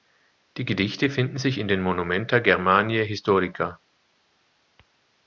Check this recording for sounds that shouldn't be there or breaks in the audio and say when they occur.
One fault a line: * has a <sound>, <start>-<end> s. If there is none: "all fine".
all fine